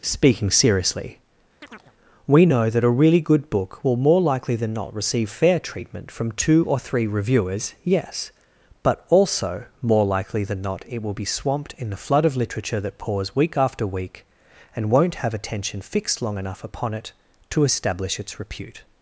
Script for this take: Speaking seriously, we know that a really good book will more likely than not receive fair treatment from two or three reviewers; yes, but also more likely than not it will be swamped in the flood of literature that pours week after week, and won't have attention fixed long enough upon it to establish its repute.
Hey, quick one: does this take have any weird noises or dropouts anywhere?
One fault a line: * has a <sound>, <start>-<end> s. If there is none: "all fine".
* has a chirp, 1.6-1.9 s